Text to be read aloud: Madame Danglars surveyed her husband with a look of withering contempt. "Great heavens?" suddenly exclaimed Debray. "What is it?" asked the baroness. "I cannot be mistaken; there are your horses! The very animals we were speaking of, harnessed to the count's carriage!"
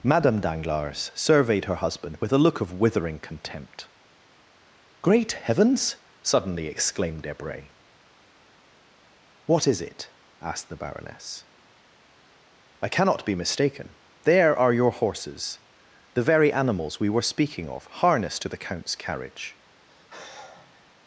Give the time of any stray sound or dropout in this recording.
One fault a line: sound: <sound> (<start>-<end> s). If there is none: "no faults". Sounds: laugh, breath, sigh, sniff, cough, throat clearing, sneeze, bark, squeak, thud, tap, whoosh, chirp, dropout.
sound: sigh (19.9-20.9 s)